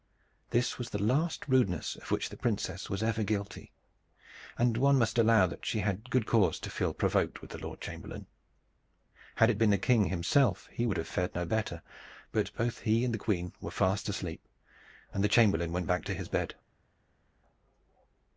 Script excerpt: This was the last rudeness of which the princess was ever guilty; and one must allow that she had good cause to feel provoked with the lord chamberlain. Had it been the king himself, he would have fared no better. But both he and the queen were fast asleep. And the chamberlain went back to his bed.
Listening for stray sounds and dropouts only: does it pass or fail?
pass